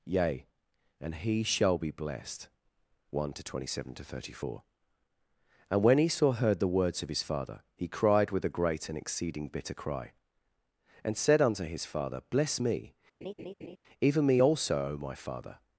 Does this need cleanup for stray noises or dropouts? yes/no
yes